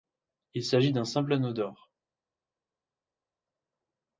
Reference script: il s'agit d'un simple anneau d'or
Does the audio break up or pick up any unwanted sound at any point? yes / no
no